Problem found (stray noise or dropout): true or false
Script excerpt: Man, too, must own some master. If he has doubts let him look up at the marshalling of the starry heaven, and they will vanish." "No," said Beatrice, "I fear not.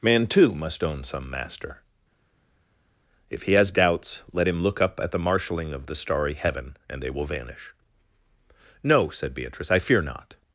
false